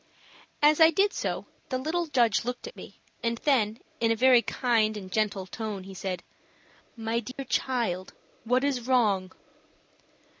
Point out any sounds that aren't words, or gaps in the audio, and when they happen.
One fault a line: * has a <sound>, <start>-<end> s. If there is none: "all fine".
* has a dropout, 7.3-7.4 s